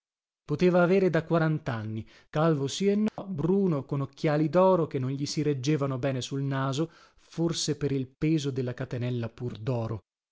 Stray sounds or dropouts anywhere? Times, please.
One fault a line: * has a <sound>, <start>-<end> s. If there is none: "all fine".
* has a dropout, 3.1-3.2 s